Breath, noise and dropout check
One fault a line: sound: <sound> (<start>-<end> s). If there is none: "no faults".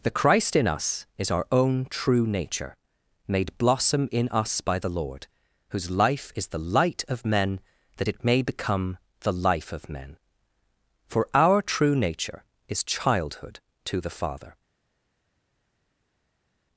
no faults